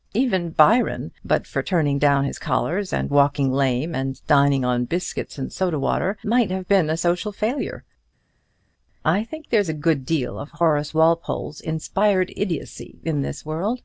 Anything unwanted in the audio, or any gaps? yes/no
no